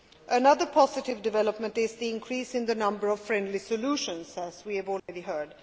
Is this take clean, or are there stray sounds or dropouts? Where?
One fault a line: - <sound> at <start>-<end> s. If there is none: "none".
- dropout at 5.0-5.1 s